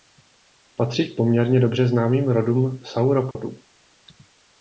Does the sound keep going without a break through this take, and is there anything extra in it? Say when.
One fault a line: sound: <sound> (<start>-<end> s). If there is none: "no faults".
sound: dropout (3.3-3.4 s)